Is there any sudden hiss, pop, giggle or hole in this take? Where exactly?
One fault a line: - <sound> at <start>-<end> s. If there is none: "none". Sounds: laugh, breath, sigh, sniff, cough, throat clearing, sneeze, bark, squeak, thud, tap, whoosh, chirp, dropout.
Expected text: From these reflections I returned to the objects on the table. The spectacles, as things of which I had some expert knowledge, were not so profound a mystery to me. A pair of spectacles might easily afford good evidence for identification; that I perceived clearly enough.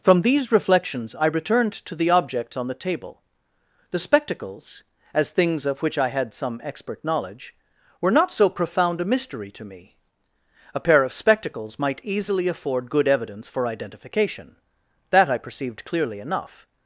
none